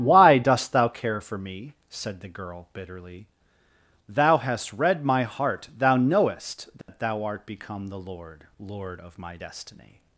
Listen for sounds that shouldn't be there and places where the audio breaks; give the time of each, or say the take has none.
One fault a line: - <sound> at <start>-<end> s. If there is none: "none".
- dropout at 6.8-6.9 s